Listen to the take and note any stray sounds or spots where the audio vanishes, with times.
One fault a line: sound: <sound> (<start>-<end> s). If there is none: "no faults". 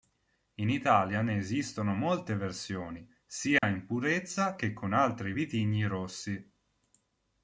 sound: dropout (3.6-3.6 s)